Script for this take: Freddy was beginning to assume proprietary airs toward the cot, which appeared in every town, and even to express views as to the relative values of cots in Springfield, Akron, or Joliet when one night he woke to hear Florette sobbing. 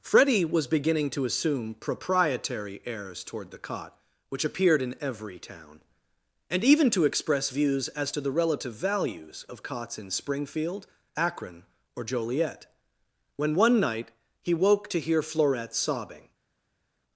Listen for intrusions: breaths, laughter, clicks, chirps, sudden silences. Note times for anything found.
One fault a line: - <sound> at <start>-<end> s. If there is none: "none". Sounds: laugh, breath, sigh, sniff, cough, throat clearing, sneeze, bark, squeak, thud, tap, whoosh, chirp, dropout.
none